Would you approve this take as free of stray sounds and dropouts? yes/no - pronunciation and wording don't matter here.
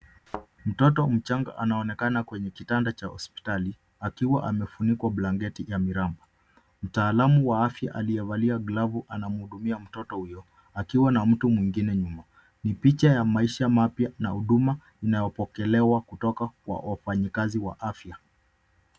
no